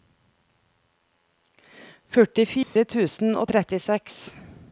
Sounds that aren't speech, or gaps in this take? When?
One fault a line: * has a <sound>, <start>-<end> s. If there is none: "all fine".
* has a dropout, 2.6-2.8 s